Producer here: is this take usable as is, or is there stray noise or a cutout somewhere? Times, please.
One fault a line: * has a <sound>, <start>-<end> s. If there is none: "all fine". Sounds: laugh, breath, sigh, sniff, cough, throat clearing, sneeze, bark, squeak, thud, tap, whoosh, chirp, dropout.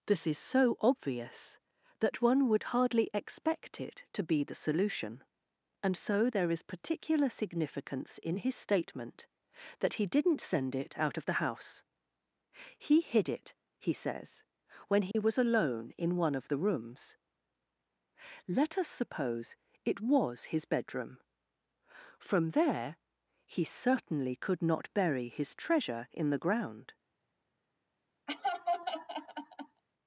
* has a dropout, 15.1-15.1 s
* has a laugh, 28.3-29.8 s